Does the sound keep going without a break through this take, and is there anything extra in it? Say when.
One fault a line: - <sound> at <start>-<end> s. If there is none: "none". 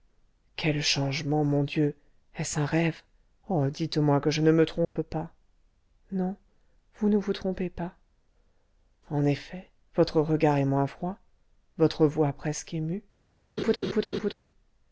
- dropout at 4.8-5.0 s
- laugh at 13.6-14.3 s